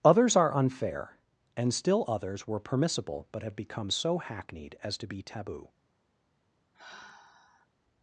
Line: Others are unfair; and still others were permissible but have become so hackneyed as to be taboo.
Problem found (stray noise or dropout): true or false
true